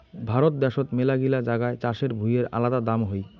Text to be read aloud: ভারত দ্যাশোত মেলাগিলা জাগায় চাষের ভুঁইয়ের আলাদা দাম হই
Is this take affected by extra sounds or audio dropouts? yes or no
no